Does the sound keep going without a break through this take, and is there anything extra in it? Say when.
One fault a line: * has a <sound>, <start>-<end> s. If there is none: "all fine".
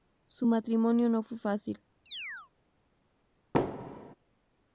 * has a chirp, 2.1-2.5 s
* has a thud, 3.5-4.1 s